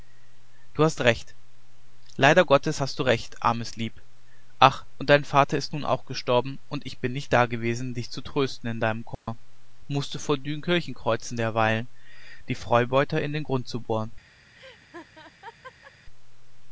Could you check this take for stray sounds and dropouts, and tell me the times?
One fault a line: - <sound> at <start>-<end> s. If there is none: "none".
- dropout at 9.1-9.3 s
- laugh at 14.5-15.9 s